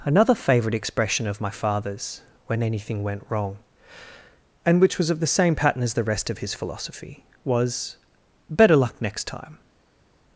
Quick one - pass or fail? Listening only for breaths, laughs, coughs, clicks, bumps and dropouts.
pass